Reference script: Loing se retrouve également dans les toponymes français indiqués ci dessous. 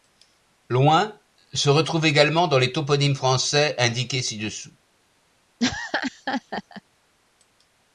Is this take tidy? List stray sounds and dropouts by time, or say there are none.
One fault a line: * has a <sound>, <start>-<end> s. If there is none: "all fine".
* has a laugh, 5.6-6.8 s